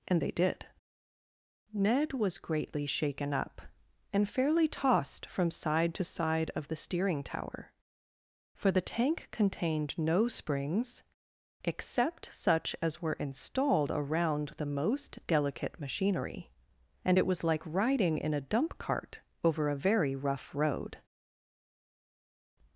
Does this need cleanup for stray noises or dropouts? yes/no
no